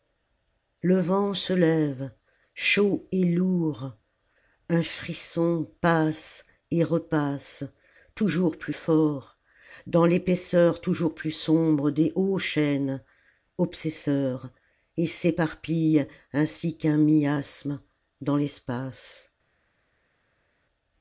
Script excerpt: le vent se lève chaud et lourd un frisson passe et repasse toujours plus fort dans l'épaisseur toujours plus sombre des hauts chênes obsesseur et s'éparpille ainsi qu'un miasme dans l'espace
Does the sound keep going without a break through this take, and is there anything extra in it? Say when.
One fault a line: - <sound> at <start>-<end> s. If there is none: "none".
none